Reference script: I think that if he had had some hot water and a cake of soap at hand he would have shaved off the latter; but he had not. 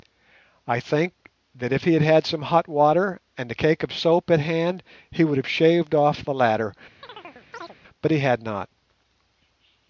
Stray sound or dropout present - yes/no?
yes